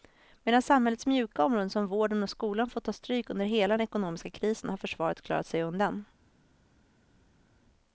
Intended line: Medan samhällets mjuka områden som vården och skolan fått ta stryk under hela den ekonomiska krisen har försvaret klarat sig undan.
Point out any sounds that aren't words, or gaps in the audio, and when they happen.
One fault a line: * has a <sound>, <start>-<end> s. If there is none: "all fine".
all fine